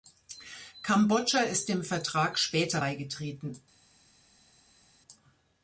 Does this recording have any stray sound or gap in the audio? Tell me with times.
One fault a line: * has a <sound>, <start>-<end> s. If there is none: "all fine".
all fine